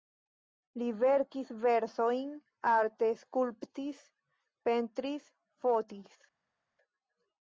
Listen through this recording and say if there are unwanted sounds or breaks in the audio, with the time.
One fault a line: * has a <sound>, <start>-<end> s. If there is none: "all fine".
all fine